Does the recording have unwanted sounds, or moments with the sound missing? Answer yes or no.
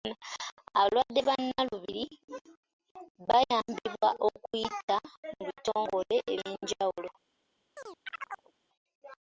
yes